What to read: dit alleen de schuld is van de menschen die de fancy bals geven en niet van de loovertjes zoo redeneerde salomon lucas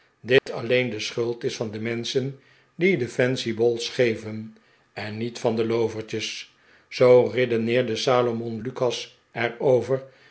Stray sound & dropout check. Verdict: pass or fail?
fail